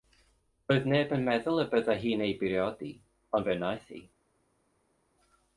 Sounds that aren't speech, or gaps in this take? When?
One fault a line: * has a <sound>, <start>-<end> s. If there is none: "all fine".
all fine